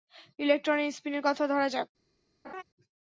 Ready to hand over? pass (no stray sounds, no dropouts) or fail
fail